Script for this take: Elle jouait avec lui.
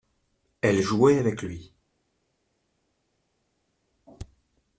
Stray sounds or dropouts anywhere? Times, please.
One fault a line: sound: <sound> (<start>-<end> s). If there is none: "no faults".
no faults